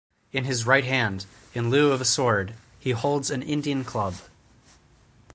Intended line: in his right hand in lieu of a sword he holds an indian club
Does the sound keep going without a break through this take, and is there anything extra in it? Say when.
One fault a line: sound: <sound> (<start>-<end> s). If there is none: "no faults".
no faults